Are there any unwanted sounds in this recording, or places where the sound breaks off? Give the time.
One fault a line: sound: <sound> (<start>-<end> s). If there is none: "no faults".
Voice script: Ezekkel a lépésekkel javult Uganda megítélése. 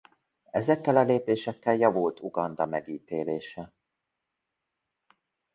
no faults